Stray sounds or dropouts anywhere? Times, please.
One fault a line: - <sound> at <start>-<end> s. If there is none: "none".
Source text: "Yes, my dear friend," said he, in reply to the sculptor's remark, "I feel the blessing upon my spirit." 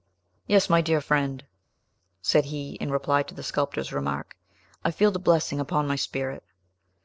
none